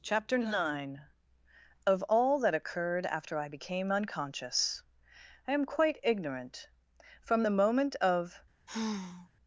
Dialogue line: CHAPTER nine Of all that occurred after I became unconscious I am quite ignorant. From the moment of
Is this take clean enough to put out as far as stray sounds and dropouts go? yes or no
no